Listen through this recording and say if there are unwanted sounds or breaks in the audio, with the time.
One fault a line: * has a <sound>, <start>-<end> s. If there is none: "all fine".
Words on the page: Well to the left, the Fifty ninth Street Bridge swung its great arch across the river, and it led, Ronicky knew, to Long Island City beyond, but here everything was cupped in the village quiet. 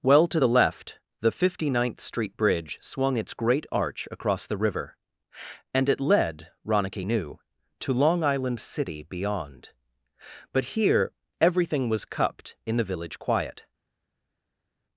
all fine